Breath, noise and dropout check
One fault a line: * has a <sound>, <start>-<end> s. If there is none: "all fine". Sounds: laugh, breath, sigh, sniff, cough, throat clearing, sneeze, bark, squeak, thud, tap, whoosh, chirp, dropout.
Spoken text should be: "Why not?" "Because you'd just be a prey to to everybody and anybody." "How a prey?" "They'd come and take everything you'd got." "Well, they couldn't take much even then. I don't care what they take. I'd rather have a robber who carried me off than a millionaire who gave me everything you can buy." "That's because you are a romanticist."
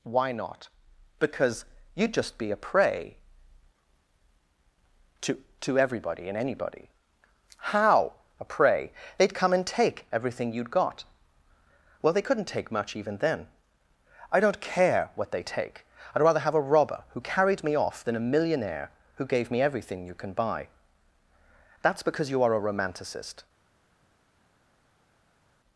all fine